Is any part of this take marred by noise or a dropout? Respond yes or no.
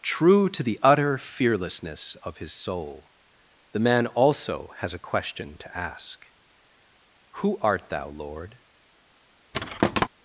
yes